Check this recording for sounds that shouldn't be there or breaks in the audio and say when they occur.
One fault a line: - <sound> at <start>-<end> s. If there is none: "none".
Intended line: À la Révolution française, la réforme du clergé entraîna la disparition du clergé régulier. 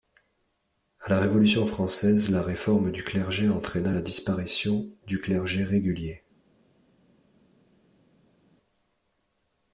none